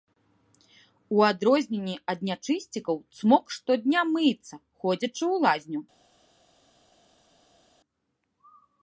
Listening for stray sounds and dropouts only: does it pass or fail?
pass